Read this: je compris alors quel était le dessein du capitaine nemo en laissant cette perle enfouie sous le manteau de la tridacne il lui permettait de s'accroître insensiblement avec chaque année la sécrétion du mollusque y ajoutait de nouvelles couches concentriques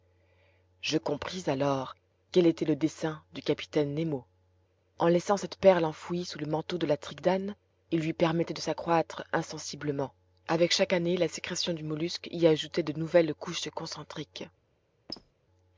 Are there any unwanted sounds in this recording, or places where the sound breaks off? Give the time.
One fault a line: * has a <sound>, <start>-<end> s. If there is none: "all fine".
* has a squeak, 15.1-15.3 s